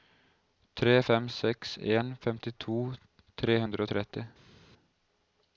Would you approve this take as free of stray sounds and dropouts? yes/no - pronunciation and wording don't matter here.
yes